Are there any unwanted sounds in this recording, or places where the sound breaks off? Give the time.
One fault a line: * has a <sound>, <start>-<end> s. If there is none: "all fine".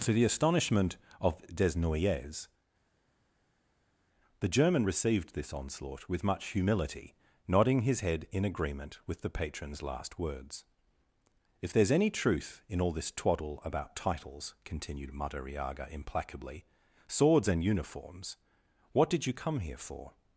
all fine